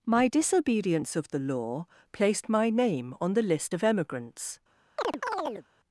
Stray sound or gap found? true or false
true